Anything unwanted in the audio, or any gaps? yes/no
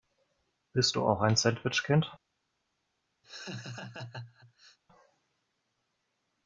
yes